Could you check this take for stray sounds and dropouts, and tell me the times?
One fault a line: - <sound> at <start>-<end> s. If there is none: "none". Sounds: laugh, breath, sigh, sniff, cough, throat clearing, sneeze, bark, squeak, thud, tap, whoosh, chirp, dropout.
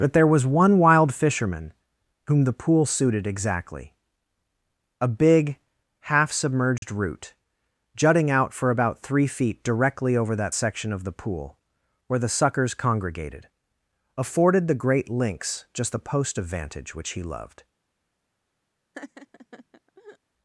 - dropout at 6.8-6.8 s
- laugh at 18.9-20.2 s